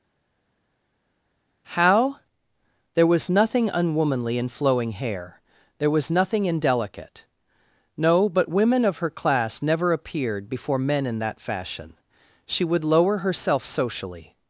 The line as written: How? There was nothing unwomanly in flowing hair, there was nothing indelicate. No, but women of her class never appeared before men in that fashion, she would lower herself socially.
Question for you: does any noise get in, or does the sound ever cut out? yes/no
no